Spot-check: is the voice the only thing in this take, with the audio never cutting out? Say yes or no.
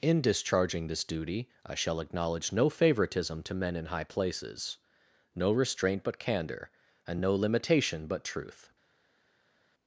yes